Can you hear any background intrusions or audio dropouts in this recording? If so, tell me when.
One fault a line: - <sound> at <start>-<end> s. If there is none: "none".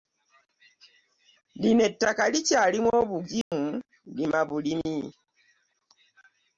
- dropout at 3.4-3.5 s